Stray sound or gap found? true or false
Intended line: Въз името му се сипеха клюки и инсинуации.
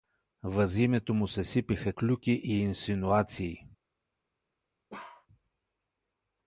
true